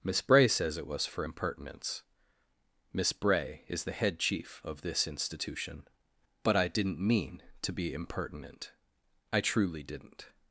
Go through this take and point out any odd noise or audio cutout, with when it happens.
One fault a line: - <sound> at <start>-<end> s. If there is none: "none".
none